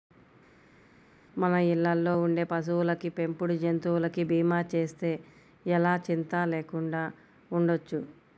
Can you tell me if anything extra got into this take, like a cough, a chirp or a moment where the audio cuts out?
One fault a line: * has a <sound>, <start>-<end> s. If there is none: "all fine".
all fine